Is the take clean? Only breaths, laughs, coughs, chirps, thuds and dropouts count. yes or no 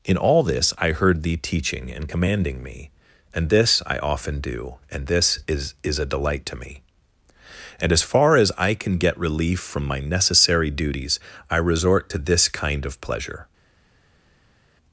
yes